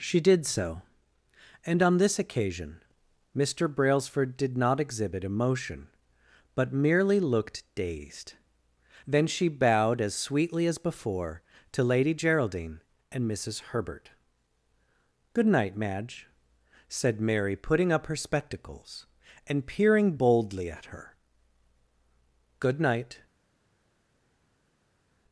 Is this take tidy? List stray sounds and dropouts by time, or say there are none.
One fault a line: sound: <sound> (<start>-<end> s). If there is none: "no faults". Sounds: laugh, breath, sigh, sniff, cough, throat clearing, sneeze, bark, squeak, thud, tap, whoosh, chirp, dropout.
no faults